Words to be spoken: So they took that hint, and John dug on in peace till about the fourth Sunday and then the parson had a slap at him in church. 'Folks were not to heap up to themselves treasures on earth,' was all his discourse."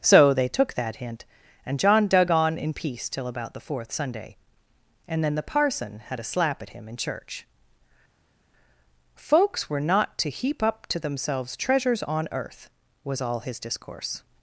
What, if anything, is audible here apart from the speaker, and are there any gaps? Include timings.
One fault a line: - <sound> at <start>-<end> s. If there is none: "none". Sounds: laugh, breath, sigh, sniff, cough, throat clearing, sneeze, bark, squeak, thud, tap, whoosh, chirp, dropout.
none